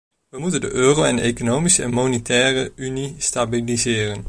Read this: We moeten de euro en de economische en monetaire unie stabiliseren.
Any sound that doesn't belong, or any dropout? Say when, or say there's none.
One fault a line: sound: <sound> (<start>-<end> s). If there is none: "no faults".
no faults